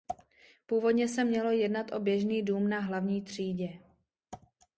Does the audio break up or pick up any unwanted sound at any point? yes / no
no